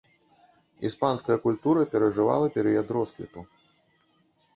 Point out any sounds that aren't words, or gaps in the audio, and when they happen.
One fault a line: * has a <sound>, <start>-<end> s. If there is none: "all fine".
all fine